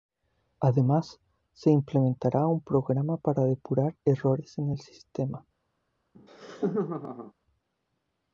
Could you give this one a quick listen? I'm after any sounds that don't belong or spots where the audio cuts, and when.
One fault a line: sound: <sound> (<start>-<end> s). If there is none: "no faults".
sound: laugh (6.1-7.3 s)